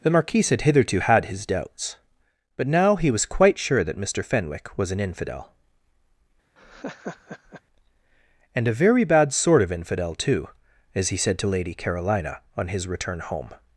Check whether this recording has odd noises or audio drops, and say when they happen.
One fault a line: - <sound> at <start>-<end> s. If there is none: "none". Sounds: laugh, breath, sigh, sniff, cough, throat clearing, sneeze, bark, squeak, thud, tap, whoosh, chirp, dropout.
- laugh at 6.6-7.6 s